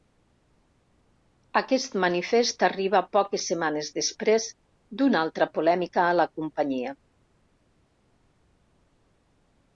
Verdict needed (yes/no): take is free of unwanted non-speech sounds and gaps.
yes